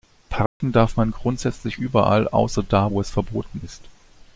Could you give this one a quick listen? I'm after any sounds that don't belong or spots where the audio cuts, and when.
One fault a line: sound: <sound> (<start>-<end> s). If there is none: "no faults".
sound: dropout (0.5-0.6 s)